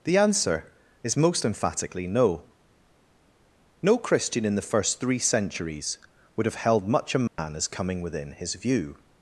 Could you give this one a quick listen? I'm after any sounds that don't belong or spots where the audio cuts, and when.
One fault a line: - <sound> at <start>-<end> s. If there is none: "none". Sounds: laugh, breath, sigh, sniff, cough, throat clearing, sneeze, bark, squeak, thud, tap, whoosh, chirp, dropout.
- dropout at 7.3-7.4 s